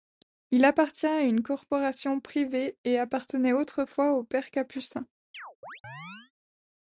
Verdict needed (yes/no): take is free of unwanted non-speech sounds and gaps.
no